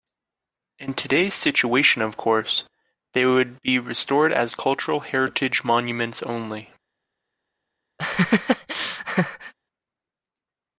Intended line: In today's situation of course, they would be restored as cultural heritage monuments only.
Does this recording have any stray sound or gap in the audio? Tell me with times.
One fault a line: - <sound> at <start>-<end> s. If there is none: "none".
- laugh at 8.0-9.5 s